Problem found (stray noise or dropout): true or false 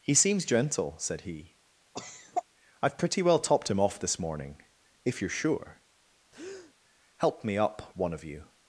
true